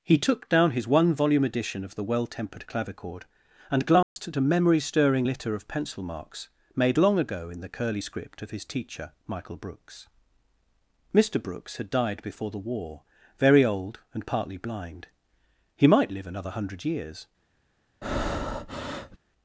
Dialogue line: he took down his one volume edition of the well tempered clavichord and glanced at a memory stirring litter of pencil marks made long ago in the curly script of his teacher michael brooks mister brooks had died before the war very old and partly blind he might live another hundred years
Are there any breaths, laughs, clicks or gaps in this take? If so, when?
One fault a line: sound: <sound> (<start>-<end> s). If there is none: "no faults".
sound: dropout (4.0-4.2 s)
sound: breath (18.0-19.2 s)